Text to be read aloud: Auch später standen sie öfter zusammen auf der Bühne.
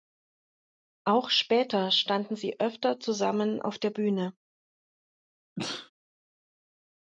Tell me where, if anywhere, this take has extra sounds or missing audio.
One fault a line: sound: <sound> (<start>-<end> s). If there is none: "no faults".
sound: sneeze (5.6-5.9 s)